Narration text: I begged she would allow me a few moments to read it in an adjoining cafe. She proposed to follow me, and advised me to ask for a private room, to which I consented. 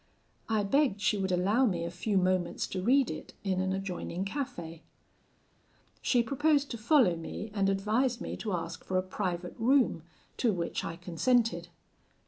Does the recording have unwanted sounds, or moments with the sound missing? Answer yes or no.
no